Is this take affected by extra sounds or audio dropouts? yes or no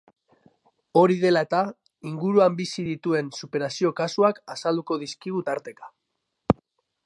no